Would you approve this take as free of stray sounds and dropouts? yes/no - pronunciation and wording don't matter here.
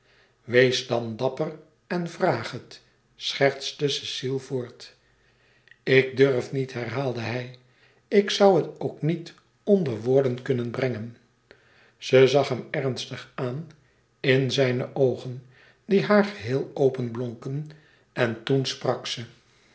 yes